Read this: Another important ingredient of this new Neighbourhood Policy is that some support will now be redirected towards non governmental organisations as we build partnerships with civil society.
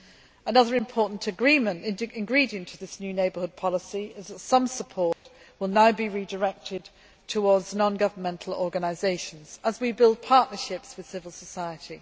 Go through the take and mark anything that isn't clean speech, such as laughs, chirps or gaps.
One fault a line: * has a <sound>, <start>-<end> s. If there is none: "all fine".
* has a dropout, 5.1-5.3 s